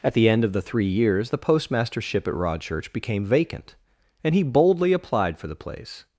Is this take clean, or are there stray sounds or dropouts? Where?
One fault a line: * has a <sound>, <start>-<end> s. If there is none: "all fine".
all fine